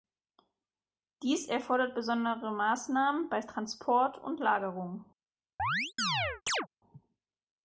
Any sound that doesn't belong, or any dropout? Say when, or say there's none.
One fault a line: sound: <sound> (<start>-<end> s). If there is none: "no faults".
sound: chirp (5.6-6.7 s)